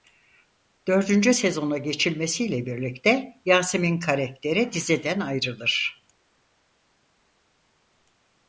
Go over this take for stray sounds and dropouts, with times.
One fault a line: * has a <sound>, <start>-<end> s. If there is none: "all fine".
all fine